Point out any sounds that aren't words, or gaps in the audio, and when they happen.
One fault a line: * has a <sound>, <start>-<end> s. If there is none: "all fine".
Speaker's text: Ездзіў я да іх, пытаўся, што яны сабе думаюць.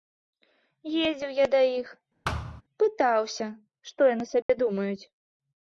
* has a thud, 2.2-2.6 s
* has a dropout, 4.4-4.5 s